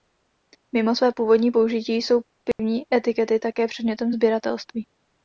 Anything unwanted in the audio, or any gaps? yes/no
yes